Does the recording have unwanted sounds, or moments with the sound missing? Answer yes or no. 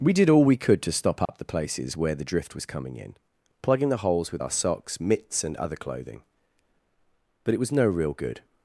yes